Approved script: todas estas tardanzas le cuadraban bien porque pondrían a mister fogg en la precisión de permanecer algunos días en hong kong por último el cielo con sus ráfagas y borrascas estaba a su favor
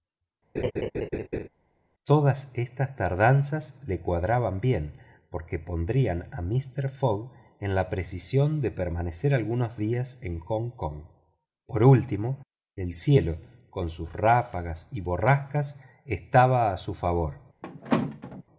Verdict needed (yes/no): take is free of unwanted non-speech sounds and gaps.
no